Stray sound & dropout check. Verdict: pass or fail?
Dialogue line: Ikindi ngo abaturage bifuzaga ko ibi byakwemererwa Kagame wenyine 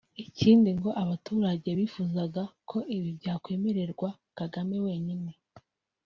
pass